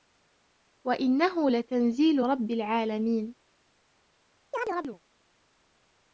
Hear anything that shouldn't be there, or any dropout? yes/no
yes